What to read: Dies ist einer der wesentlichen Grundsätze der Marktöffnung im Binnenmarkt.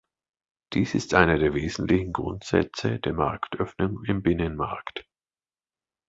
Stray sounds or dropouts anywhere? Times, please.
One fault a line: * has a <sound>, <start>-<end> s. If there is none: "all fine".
all fine